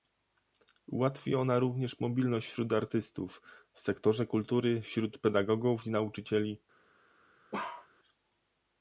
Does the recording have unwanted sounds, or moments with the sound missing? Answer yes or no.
yes